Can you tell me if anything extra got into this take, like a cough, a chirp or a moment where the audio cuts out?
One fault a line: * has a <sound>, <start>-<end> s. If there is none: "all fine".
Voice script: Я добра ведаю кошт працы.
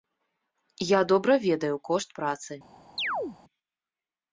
* has a chirp, 3.0-3.4 s